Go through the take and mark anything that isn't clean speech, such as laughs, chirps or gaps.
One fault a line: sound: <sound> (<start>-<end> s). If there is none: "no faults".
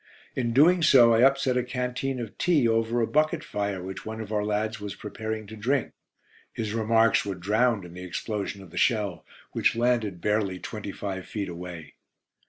no faults